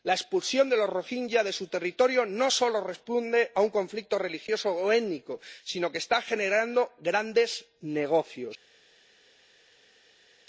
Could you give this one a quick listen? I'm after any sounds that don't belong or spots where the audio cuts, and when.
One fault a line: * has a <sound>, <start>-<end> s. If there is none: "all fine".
all fine